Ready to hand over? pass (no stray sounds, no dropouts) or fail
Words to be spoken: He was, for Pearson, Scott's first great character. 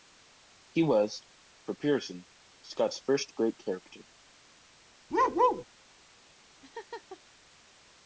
fail